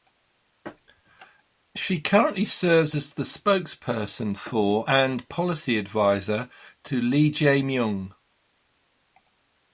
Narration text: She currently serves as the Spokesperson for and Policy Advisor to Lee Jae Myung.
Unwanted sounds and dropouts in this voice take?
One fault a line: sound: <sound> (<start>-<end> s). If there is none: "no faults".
no faults